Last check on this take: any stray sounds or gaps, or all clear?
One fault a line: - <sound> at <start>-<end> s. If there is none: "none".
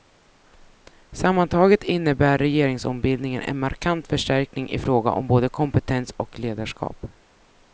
none